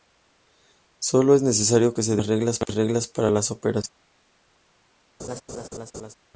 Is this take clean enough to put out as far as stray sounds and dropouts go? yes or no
no